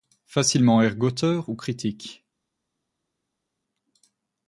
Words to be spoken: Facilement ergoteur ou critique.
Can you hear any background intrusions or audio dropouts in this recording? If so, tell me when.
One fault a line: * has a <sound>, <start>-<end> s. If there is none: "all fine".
all fine